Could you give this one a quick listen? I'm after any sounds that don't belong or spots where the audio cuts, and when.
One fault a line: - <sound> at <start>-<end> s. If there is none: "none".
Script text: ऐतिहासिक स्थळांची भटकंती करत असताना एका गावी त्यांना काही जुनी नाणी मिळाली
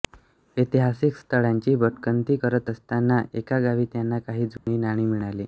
- dropout at 4.6-4.7 s